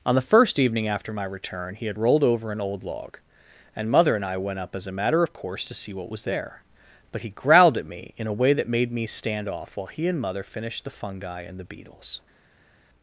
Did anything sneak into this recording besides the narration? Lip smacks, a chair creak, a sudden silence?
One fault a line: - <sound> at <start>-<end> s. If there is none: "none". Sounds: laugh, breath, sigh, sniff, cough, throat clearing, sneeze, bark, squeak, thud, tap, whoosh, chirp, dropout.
none